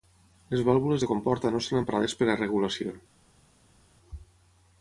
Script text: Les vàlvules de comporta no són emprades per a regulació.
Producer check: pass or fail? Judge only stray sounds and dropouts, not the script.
pass